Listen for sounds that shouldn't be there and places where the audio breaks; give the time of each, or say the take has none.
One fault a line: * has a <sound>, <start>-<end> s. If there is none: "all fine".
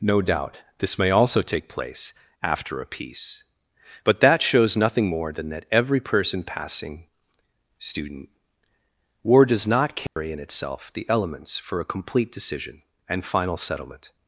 * has a dropout, 10.1-10.2 s